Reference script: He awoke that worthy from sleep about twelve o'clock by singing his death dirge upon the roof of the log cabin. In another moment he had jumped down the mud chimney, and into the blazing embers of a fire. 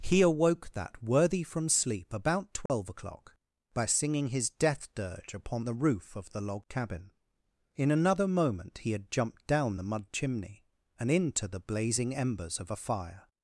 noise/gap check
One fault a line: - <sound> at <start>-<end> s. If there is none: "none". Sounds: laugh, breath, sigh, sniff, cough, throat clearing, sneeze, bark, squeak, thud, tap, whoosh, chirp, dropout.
- dropout at 2.7-2.7 s